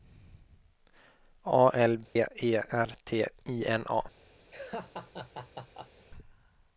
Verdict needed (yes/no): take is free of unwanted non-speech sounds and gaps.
no